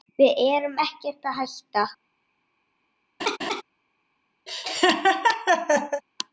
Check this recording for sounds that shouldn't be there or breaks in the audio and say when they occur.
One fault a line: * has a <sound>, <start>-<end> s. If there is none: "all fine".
* has a laugh, 3.2-3.6 s
* has a laugh, 4.5-6.0 s